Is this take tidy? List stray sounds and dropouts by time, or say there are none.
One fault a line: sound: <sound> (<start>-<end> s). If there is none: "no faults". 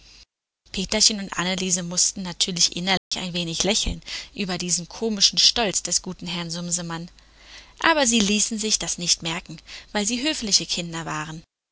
sound: dropout (3.0-3.1 s)